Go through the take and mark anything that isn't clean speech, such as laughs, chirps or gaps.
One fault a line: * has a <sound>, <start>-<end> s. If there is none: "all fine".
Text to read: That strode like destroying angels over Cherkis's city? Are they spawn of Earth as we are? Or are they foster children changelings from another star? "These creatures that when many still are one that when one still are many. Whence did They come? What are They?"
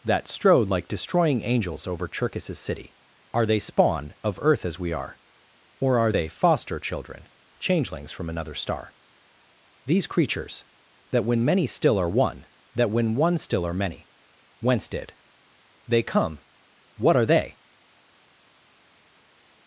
all fine